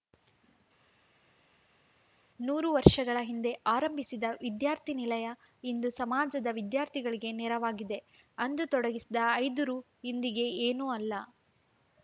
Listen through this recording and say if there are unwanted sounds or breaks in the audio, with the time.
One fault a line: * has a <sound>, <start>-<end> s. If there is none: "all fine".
all fine